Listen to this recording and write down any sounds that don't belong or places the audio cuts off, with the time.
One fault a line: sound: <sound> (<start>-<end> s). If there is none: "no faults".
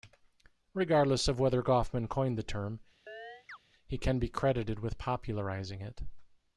sound: chirp (3.1-3.6 s)